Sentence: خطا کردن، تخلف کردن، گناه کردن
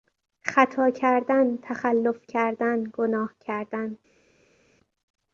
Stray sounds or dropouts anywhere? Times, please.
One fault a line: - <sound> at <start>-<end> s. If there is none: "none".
none